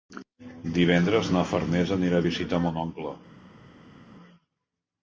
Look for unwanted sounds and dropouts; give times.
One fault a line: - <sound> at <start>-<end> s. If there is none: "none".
none